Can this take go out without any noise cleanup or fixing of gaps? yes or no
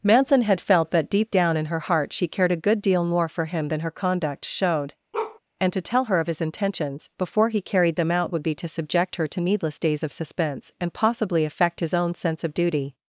no